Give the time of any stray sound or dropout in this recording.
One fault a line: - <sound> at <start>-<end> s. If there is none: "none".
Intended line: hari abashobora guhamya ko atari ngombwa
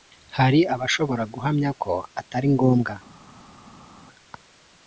none